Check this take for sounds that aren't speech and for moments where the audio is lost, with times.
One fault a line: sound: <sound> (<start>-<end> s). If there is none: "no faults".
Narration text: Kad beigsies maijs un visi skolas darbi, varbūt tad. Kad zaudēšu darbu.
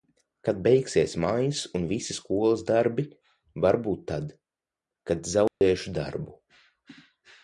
sound: dropout (5.5-5.6 s)